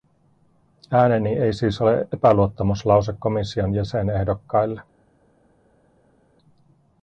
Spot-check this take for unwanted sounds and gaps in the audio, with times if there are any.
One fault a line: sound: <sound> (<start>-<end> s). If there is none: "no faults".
no faults